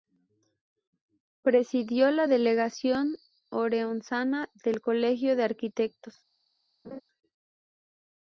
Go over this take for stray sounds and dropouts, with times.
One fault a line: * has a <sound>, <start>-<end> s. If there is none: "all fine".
* has a laugh, 6.8-7.0 s